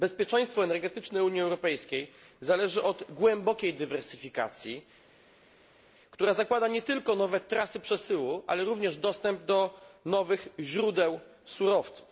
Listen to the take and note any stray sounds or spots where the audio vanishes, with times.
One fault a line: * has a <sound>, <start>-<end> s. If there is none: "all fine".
all fine